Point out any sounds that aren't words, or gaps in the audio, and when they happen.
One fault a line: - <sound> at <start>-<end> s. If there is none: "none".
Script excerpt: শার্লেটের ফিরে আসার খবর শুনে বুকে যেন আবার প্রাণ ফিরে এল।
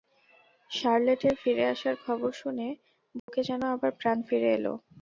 - dropout at 3.2-3.3 s